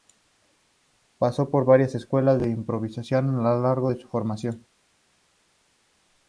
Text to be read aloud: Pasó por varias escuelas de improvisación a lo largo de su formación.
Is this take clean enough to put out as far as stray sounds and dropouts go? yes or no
yes